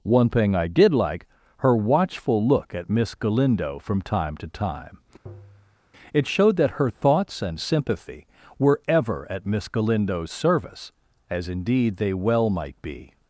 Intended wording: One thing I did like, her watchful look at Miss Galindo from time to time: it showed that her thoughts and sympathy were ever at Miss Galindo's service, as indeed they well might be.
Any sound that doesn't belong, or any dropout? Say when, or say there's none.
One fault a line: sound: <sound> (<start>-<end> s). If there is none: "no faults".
sound: tap (5.3-5.8 s)